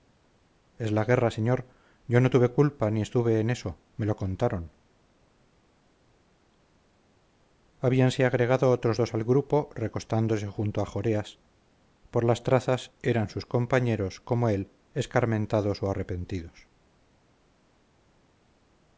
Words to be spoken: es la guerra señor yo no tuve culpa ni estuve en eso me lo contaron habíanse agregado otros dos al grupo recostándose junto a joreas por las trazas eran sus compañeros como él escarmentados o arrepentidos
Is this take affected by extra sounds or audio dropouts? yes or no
no